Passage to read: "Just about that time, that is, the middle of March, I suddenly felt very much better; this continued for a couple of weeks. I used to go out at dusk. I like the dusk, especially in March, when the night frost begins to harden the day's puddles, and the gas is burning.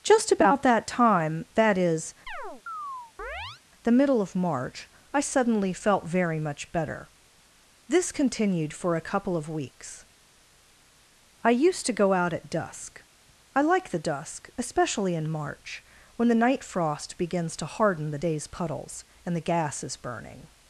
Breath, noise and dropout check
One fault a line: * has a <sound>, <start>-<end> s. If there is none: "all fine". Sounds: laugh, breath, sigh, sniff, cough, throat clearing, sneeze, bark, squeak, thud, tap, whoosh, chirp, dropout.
* has a chirp, 2.3-3.6 s